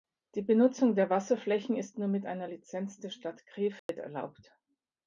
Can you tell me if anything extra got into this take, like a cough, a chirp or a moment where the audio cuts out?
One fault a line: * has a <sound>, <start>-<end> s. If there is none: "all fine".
* has a dropout, 3.8-3.9 s